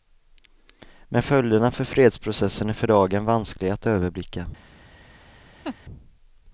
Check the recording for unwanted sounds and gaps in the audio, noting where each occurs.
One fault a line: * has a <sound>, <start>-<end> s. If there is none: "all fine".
* has a laugh, 5.6-5.8 s